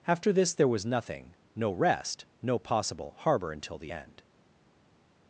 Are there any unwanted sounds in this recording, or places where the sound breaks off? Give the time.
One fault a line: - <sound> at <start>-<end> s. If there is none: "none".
none